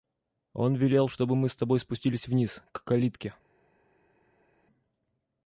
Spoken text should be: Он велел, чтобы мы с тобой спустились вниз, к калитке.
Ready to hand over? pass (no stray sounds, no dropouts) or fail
pass